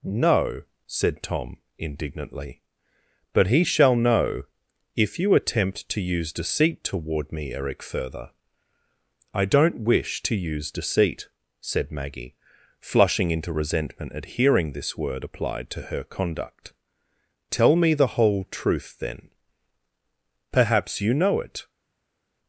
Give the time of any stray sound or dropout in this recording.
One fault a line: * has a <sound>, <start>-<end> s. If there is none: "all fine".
all fine